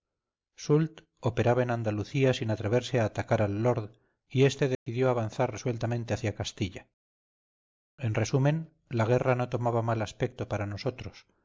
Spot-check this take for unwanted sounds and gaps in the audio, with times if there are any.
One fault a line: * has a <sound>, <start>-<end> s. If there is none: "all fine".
* has a dropout, 4.7-4.9 s